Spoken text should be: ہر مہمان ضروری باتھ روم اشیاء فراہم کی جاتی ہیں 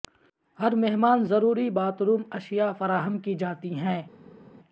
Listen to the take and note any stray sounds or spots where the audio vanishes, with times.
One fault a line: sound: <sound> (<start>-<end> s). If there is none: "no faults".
no faults